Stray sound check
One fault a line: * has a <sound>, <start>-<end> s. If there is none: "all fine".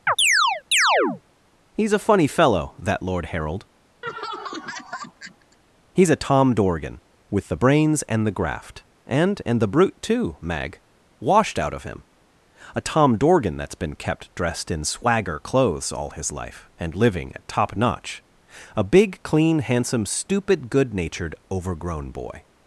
* has a chirp, 0.1-1.2 s
* has a laugh, 4.0-5.6 s